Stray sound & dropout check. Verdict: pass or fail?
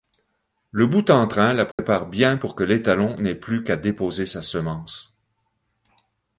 fail